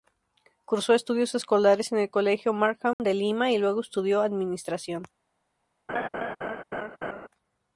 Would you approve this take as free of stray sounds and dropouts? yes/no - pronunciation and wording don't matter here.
no